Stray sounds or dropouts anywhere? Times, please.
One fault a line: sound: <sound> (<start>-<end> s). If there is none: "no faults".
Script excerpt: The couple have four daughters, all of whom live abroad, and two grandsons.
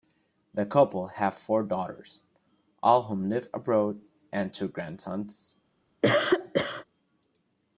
sound: cough (6.0-6.8 s)